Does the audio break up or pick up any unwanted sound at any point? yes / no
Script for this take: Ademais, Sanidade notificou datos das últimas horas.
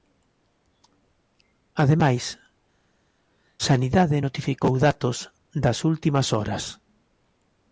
no